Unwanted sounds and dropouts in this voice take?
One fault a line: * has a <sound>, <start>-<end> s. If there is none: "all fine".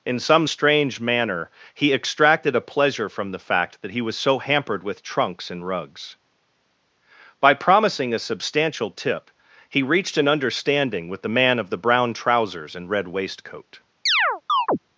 * has a chirp, 14.1-14.8 s